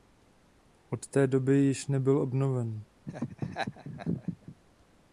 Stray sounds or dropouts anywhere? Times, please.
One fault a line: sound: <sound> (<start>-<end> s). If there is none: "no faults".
sound: laugh (3.1-4.6 s)